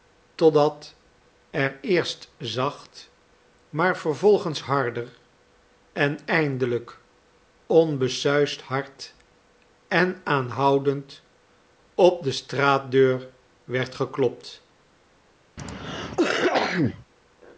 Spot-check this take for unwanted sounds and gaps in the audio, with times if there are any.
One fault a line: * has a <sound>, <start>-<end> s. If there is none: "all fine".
* has a cough, 15.6-17.1 s